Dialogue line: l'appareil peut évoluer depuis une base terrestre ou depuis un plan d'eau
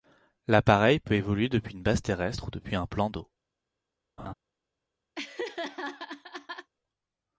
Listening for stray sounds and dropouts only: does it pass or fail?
fail